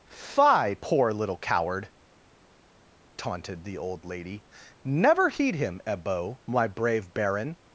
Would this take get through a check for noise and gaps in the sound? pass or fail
pass